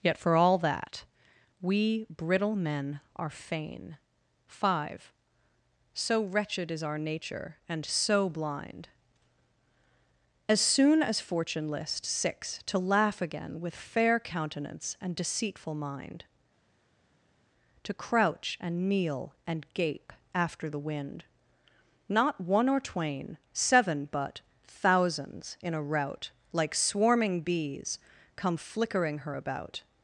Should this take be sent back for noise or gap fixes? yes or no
no